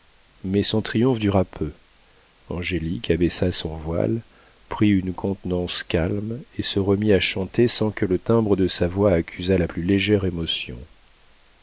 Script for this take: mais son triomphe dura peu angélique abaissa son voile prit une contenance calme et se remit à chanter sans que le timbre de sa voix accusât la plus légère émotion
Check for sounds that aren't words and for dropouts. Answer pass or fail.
pass